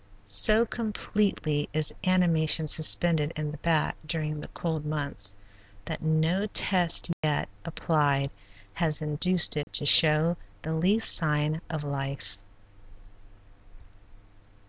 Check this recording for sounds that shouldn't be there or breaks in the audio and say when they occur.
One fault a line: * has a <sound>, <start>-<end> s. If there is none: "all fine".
* has a dropout, 7.1-7.2 s
* has a dropout, 9.6-9.7 s